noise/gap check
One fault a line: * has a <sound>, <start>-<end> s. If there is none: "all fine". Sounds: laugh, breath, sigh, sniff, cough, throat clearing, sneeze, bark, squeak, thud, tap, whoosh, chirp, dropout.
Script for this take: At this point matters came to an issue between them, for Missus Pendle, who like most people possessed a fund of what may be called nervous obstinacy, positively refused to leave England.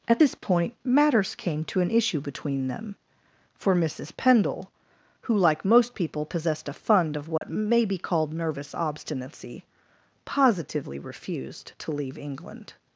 * has a dropout, 7.4-7.4 s